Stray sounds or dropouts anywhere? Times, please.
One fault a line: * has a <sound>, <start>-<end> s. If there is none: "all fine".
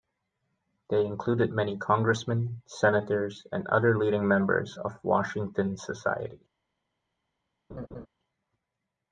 * has a laugh, 7.7-8.1 s